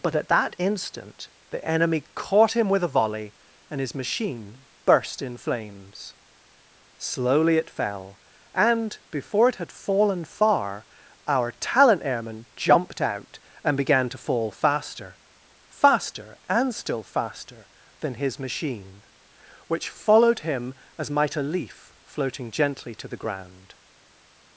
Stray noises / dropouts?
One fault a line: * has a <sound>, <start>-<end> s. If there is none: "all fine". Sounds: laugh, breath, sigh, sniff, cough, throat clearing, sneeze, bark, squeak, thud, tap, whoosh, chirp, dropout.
all fine